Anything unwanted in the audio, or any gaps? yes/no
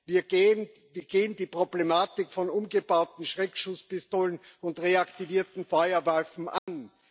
yes